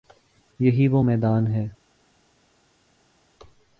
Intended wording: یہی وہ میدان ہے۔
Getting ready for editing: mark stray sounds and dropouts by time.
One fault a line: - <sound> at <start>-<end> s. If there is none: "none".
none